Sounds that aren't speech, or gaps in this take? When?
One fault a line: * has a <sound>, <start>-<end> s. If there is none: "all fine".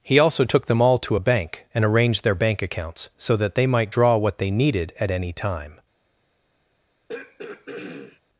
* has a throat clearing, 7.1-8.2 s